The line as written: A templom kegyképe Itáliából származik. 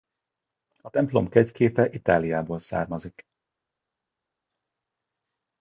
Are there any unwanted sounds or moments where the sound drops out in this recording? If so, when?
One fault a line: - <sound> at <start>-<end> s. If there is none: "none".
none